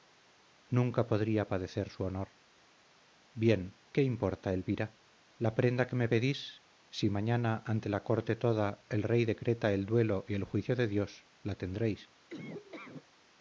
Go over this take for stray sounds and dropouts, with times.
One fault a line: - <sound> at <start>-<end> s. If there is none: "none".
- laugh at 12.3-13.1 s